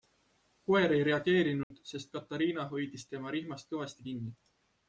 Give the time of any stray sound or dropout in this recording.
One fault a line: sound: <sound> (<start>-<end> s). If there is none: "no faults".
sound: dropout (1.6-1.7 s)